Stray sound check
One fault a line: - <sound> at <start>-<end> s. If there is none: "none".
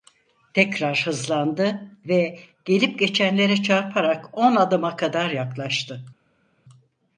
none